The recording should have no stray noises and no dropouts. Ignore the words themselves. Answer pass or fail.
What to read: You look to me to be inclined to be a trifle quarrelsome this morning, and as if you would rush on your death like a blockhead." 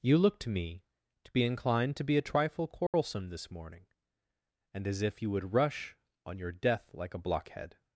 fail